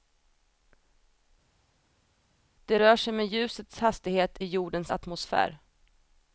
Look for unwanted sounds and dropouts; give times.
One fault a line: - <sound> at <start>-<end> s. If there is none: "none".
none